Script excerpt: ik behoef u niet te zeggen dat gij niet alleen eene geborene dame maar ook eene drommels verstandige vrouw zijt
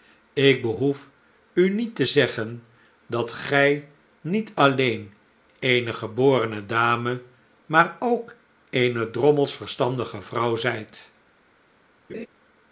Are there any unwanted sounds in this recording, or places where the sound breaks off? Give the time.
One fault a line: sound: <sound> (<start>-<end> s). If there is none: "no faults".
sound: laugh (12.1-12.3 s)